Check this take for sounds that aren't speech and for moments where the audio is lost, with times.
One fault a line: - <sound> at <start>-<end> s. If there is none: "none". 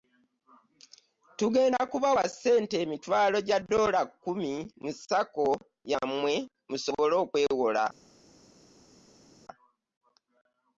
none